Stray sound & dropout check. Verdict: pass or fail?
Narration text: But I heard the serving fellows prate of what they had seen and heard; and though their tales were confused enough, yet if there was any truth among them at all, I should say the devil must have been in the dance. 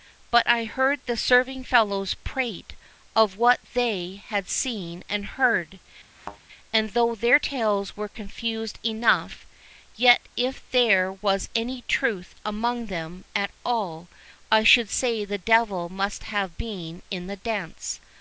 fail